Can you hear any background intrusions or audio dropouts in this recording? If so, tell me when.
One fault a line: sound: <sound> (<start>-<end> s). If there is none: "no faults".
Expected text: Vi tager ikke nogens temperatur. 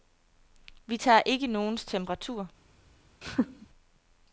sound: laugh (3.2-3.7 s)